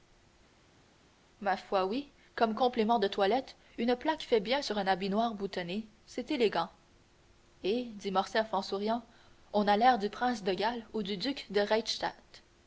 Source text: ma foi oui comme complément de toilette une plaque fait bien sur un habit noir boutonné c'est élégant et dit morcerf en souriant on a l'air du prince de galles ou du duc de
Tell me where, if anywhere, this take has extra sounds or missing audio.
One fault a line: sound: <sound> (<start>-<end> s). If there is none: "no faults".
no faults